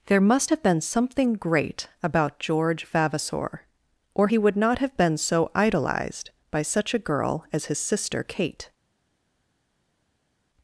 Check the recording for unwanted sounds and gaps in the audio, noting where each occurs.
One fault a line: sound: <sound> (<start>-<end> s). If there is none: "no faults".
no faults